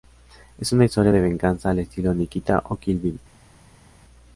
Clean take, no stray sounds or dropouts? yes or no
yes